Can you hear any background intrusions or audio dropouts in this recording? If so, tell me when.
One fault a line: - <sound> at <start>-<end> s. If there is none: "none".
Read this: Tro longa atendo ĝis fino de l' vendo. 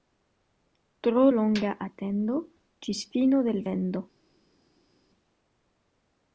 none